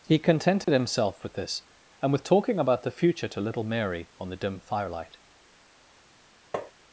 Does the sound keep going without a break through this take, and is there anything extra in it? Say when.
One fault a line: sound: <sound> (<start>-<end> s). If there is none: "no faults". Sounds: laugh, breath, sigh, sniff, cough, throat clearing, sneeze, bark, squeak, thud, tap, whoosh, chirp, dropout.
sound: dropout (0.6-0.7 s)
sound: tap (6.5-6.7 s)